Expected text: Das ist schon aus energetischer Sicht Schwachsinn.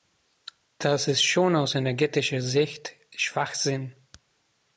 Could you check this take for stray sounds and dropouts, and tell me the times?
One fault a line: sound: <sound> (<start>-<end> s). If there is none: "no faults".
no faults